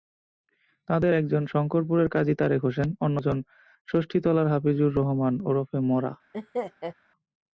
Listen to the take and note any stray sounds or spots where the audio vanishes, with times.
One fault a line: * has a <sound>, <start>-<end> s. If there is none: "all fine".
* has a laugh, 6.3-6.9 s